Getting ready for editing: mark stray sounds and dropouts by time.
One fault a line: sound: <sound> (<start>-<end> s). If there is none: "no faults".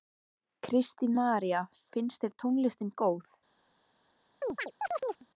sound: chirp (4.4-5.3 s)